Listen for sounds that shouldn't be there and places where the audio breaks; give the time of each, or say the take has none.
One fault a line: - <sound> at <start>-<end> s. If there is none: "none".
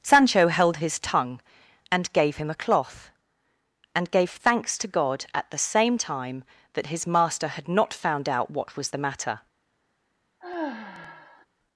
- sigh at 10.4-11.5 s